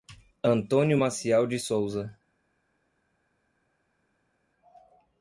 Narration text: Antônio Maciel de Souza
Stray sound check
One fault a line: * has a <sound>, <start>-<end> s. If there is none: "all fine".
all fine